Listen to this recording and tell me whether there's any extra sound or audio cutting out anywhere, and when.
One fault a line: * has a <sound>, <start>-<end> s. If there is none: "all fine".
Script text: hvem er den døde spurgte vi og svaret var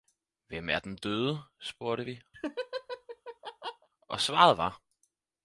* has a laugh, 2.3-3.9 s